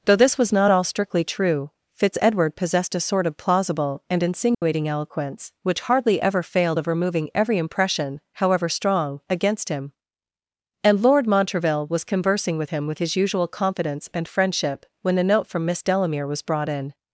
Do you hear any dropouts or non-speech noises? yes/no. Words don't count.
yes